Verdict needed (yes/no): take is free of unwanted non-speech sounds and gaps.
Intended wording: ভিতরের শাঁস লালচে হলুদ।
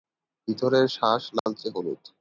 no